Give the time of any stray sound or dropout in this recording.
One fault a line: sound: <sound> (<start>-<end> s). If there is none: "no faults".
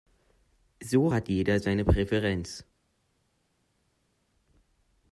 no faults